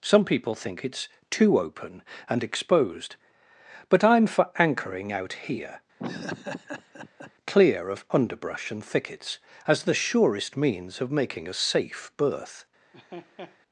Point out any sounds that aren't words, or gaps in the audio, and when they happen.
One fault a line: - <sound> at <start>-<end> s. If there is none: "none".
- laugh at 6.0-7.3 s
- laugh at 12.9-13.6 s